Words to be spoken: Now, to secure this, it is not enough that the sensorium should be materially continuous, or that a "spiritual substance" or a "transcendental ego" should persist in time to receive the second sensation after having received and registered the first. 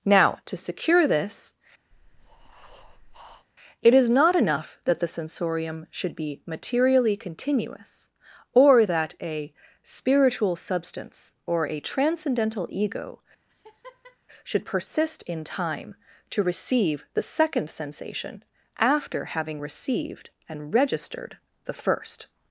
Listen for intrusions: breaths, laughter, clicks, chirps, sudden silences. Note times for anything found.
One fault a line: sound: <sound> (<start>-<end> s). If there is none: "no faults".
sound: breath (1.9-3.5 s)
sound: laugh (13.5-14.2 s)